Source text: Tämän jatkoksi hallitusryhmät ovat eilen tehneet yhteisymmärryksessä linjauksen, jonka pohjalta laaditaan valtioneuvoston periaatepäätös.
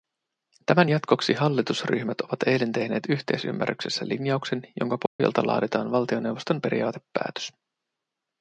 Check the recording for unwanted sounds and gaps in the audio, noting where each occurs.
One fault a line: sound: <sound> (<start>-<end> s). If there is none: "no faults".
sound: dropout (5.1-5.2 s)